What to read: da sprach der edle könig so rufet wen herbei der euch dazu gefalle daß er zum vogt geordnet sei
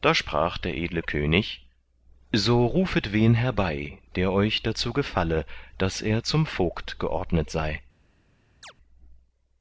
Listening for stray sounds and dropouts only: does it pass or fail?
fail